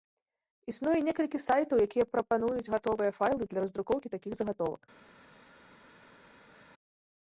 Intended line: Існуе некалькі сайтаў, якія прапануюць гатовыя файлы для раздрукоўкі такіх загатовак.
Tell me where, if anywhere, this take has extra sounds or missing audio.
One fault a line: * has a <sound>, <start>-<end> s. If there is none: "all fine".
all fine